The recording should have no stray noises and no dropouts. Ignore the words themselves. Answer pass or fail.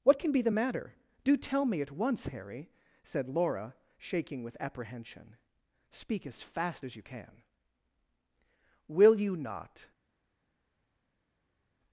pass